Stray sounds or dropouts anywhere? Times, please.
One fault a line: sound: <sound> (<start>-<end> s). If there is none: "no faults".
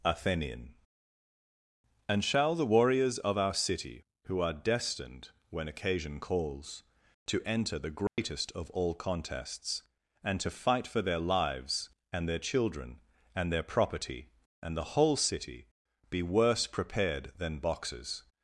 sound: dropout (8.1-8.2 s)